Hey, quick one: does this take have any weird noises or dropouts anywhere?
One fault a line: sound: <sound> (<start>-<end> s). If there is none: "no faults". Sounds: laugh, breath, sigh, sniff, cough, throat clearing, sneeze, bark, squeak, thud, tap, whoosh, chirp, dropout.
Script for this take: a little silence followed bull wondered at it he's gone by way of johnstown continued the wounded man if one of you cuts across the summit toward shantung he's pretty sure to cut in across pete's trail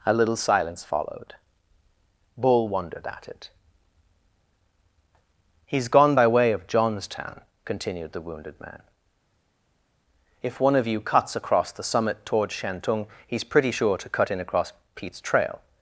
no faults